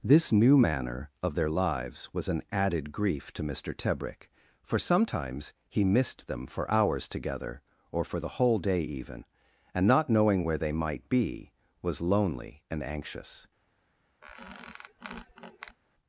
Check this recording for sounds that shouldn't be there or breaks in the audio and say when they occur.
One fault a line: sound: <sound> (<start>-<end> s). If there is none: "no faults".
sound: squeak (14.2-15.8 s)